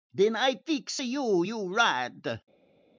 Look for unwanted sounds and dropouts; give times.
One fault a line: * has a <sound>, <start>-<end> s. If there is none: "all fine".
all fine